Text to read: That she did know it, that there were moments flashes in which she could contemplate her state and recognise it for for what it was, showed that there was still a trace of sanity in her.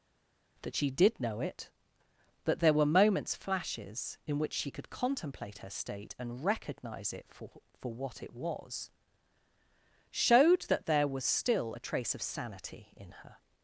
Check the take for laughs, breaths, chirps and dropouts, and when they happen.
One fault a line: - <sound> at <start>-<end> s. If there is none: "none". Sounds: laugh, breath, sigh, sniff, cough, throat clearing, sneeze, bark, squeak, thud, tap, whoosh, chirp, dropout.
none